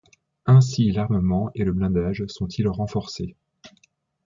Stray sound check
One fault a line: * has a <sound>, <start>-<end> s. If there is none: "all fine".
all fine